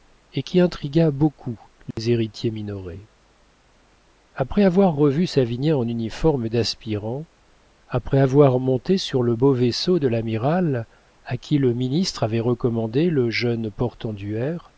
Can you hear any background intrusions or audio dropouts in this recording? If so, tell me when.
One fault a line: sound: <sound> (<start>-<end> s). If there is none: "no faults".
sound: dropout (1.9-2.0 s)